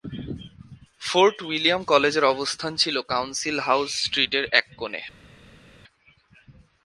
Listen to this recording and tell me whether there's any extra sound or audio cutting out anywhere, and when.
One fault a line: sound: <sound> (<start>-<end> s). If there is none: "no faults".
no faults